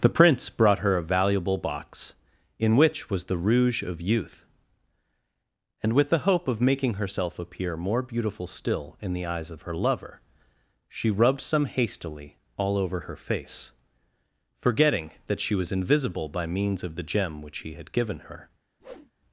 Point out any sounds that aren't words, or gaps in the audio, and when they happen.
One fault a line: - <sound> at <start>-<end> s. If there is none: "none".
- whoosh at 18.8-19.1 s